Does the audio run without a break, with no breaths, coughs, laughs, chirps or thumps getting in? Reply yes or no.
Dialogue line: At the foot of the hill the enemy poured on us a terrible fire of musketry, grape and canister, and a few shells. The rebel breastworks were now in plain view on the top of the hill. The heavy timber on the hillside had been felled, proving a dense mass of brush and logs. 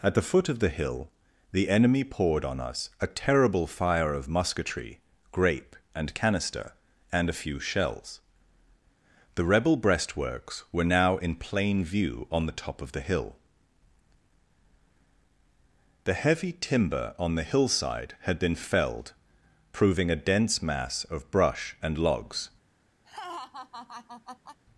no